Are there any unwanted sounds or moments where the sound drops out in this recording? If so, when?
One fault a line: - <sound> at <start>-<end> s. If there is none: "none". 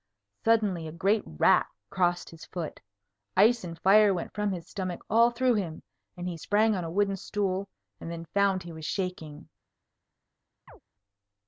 - chirp at 10.7-10.8 s